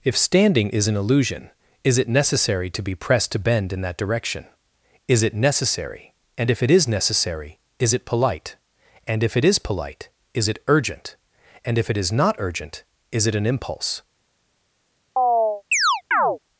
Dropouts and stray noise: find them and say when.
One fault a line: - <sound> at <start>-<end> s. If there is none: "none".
- chirp at 15.2-16.4 s